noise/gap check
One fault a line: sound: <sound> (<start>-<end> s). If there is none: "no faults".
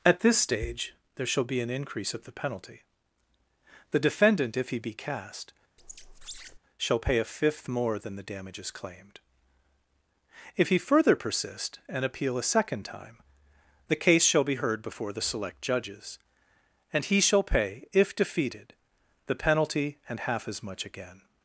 sound: squeak (5.8-6.6 s)